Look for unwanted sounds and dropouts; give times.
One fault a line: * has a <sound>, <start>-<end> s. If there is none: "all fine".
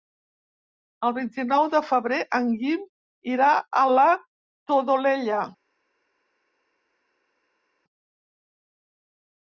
all fine